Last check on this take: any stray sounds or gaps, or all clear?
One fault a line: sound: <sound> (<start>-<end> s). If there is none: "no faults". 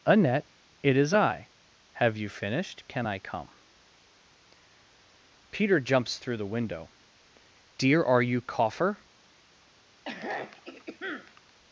sound: throat clearing (10.1-11.5 s)